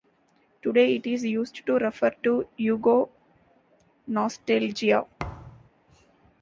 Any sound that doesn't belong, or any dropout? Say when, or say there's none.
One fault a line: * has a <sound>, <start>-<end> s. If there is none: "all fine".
* has a thud, 5.2-5.7 s